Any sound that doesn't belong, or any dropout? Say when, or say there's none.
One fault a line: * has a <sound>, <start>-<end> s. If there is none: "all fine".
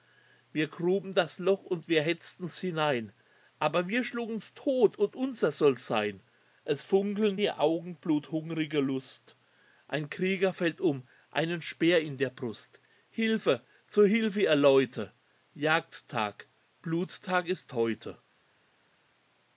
all fine